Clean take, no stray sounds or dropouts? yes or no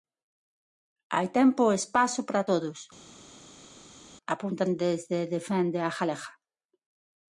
yes